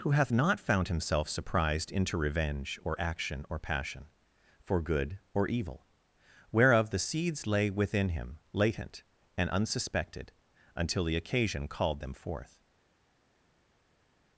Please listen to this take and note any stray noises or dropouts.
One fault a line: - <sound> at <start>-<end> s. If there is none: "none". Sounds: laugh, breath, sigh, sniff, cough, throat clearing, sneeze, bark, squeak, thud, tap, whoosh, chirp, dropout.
none